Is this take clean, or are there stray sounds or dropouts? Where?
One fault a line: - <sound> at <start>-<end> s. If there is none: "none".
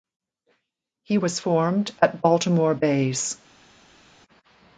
none